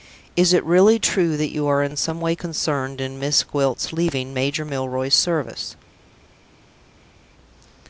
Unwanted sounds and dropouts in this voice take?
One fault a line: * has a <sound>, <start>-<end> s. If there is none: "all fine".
all fine